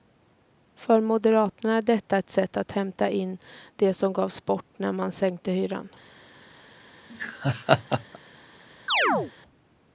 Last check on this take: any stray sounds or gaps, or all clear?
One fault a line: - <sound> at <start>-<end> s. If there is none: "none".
- laugh at 7.1-8.2 s
- chirp at 8.9-9.3 s